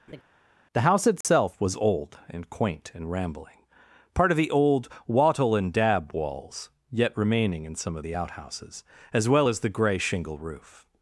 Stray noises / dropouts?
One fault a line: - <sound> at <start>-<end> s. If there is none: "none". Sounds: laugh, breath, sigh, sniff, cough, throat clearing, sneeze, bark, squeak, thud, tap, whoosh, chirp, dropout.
- laugh at 0.1-0.2 s
- dropout at 1.2-1.2 s